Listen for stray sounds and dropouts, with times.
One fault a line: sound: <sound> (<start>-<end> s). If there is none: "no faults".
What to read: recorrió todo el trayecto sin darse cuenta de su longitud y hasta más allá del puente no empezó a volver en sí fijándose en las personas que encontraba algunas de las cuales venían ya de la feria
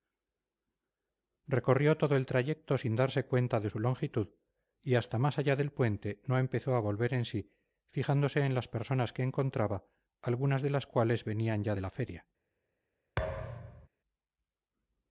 sound: thud (13.2-13.9 s)